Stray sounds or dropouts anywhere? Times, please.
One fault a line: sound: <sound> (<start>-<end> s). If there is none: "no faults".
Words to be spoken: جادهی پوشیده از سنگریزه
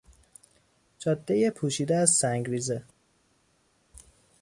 no faults